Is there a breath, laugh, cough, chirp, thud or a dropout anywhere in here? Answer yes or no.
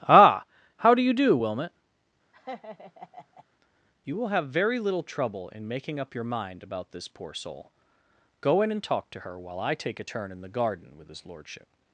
yes